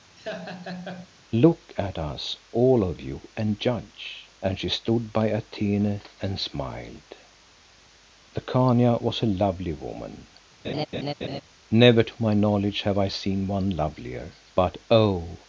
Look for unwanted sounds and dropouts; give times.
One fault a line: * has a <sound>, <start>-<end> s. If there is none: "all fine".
* has a laugh, 0.2-1.1 s
* has a laugh, 10.6-11.4 s